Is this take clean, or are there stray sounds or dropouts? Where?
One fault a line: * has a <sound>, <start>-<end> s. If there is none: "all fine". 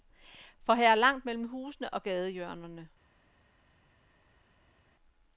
all fine